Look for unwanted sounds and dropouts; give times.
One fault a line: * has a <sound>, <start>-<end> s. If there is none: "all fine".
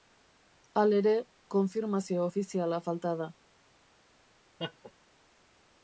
* has a laugh, 4.6-4.9 s